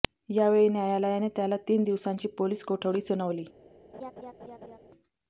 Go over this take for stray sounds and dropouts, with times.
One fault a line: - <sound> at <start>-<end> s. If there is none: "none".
- laugh at 3.9-4.8 s